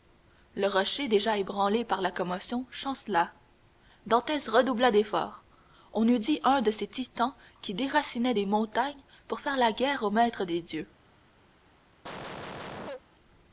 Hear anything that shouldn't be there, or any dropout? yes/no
yes